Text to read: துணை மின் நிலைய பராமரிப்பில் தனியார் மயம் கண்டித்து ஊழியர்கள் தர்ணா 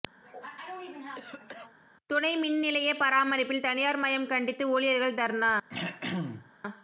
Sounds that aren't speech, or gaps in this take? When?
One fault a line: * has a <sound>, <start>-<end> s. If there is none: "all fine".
* has a cough, 0.2-1.8 s
* has a throat clearing, 5.7-6.5 s